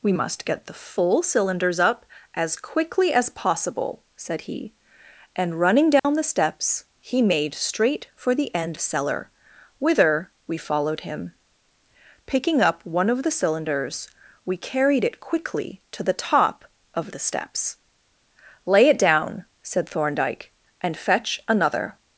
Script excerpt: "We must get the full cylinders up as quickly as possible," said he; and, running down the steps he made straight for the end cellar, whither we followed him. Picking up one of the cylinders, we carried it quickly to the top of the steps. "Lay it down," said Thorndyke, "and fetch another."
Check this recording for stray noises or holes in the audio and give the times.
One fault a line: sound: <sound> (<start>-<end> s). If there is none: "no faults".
sound: dropout (6.0-6.0 s)